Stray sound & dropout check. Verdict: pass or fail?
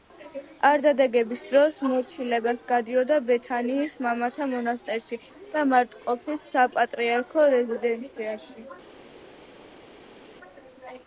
pass